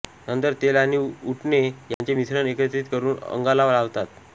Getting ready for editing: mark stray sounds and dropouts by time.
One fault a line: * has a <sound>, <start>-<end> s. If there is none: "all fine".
* has a dropout, 1.9-2.0 s